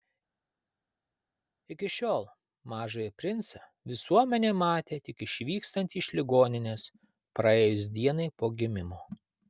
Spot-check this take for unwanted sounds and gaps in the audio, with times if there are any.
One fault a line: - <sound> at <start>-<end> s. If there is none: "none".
none